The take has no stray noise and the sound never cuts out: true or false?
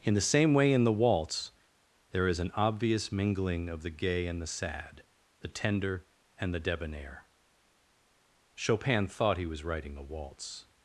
true